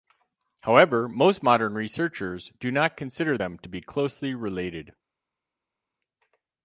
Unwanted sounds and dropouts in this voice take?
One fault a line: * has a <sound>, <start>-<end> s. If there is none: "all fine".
all fine